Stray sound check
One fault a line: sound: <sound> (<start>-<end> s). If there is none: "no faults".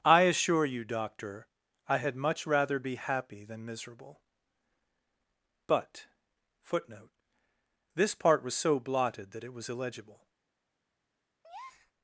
sound: breath (11.4-11.9 s)